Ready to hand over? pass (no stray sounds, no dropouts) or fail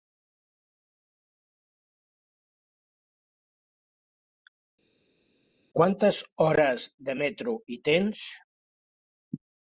pass